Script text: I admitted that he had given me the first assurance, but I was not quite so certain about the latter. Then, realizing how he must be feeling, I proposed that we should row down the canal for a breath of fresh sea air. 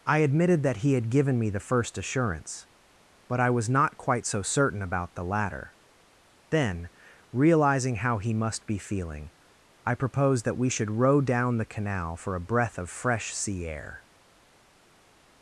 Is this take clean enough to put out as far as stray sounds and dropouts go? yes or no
yes